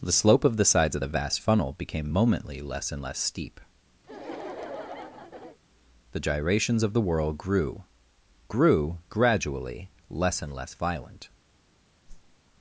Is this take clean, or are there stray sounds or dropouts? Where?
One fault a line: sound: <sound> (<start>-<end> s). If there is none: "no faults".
sound: laugh (4.0-5.6 s)
sound: whoosh (12.1-12.4 s)